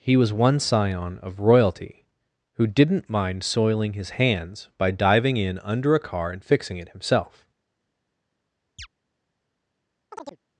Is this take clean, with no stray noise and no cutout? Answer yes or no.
no